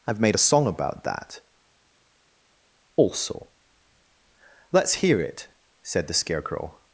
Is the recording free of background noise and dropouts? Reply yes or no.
yes